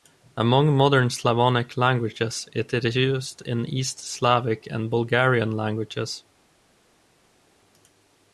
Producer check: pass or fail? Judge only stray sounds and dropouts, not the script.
pass